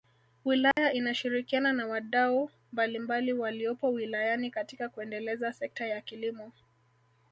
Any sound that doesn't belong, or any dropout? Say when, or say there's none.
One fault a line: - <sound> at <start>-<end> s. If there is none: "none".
- dropout at 0.7-0.8 s